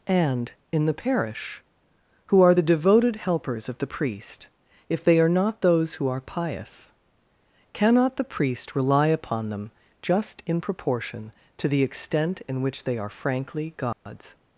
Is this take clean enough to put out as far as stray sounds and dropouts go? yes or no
no